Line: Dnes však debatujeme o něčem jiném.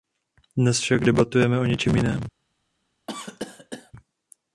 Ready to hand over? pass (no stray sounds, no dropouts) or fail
fail